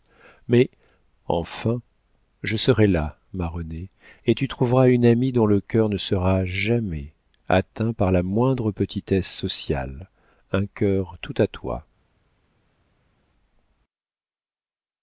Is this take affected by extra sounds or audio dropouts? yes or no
no